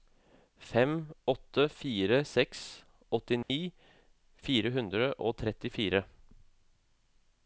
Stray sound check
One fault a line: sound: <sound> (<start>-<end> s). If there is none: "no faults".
sound: dropout (3.4-3.5 s)